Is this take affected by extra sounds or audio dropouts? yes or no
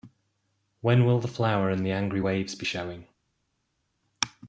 no